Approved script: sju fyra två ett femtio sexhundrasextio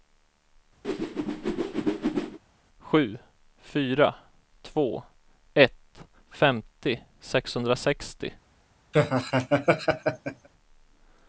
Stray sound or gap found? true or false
true